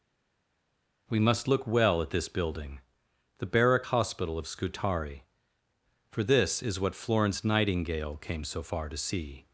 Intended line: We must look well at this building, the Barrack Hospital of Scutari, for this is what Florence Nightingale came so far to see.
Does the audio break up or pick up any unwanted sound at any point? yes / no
no